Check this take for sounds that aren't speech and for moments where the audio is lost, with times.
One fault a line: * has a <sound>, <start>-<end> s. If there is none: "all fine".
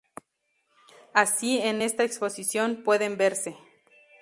all fine